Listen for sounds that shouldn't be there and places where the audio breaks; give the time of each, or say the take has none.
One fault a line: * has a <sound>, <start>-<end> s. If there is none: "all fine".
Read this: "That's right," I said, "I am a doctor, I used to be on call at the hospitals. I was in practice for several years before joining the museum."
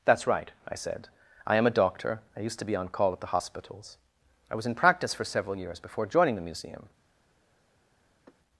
* has a sigh, 8.3-8.4 s